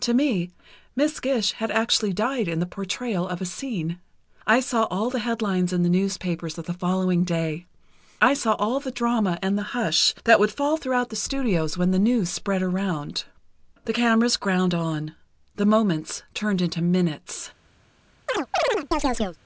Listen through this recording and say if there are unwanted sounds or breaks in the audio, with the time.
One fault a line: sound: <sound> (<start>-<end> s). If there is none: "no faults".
sound: chirp (18.3-19.4 s)